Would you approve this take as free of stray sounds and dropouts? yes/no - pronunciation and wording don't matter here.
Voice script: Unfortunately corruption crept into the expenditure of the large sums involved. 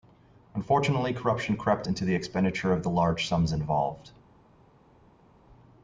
yes